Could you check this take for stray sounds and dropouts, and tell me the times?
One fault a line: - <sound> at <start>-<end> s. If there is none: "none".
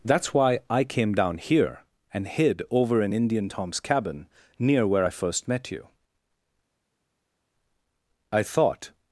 none